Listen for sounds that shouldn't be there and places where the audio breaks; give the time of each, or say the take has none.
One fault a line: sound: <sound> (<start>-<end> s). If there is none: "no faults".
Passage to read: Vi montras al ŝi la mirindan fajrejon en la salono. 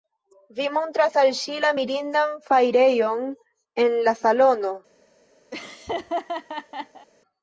sound: laugh (5.5-7.1 s)